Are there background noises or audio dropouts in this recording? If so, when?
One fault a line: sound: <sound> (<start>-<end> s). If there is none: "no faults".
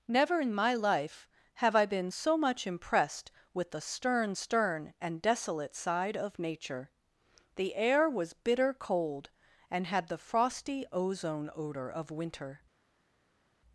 no faults